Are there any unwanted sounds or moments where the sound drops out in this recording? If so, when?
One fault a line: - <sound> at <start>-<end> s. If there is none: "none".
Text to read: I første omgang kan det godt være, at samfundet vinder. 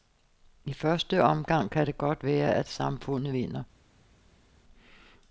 none